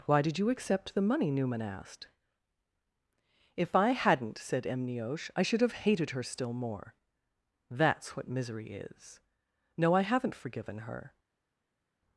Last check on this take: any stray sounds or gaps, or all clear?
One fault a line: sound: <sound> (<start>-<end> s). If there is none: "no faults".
no faults